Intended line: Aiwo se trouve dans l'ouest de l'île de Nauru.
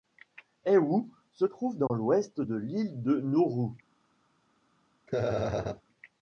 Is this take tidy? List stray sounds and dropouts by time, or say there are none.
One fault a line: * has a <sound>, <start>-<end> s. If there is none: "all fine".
* has a dropout, 1.9-1.9 s
* has a laugh, 5.1-5.8 s